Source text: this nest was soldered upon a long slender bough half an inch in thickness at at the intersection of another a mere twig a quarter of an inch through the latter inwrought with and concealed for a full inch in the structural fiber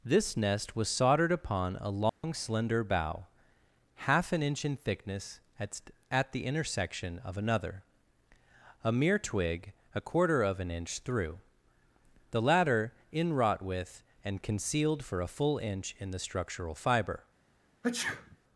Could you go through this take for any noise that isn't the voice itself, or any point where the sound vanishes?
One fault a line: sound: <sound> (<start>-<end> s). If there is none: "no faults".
sound: dropout (2.1-2.2 s)
sound: sneeze (17.8-18.4 s)